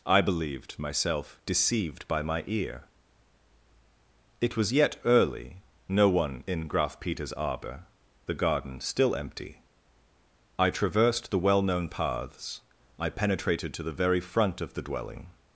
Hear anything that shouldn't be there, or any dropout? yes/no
no